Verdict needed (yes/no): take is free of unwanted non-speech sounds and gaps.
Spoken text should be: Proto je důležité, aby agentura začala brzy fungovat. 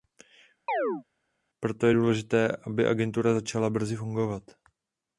no